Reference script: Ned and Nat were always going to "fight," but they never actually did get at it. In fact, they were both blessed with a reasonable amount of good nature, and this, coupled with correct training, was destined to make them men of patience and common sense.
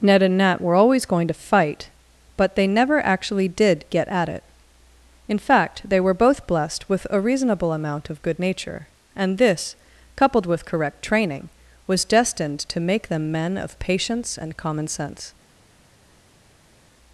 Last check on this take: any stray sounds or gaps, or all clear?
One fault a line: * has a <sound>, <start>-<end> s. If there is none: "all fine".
all fine